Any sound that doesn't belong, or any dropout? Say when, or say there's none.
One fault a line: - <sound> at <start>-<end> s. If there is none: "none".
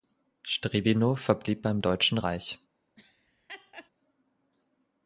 - laugh at 3.0-3.9 s